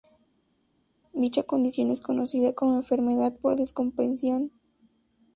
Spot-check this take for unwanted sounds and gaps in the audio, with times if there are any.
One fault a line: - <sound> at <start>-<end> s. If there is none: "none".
none